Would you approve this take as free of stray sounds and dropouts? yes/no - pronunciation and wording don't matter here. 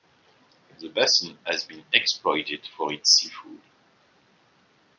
yes